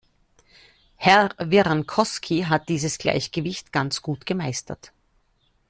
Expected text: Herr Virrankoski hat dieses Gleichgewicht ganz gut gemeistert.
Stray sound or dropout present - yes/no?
no